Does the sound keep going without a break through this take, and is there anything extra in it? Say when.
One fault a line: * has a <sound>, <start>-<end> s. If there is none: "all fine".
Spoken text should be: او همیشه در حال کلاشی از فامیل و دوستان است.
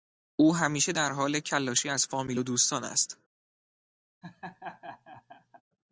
* has a laugh, 4.2-5.6 s